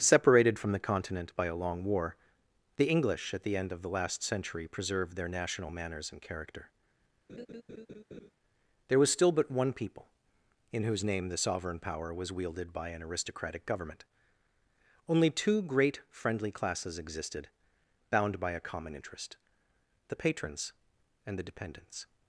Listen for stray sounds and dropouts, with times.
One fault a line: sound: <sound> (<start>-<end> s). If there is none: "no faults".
sound: laugh (7.3-8.3 s)